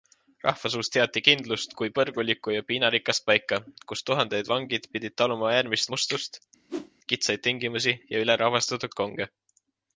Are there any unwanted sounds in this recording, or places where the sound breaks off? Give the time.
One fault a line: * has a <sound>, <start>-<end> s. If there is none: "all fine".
* has a whoosh, 6.7-6.9 s